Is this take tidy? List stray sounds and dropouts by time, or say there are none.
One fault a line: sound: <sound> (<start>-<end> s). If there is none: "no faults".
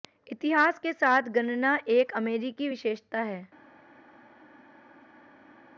no faults